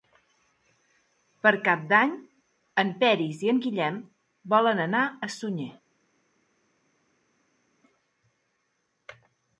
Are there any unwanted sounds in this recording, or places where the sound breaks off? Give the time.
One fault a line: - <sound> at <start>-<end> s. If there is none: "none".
none